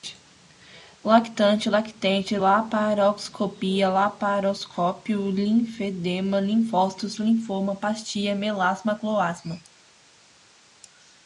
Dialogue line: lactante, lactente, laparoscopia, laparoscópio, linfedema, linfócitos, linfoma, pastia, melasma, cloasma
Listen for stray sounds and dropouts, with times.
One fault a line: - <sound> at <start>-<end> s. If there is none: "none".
none